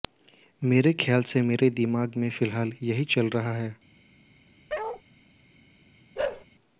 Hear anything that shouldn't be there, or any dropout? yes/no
yes